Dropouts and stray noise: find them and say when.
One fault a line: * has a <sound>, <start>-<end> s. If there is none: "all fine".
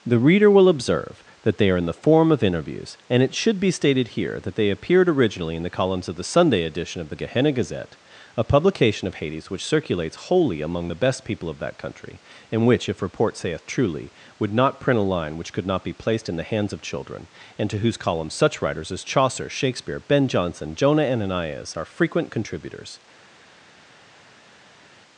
all fine